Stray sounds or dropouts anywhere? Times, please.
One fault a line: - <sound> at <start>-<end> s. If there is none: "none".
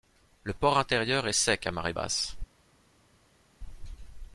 none